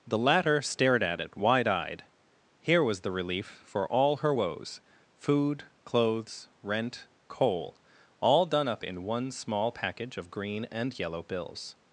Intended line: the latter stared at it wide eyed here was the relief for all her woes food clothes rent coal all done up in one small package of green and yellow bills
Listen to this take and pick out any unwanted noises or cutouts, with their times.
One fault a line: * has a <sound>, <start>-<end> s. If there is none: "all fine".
all fine